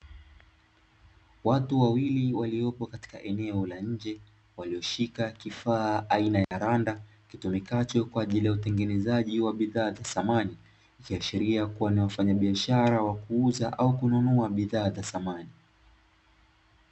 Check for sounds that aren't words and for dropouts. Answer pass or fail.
fail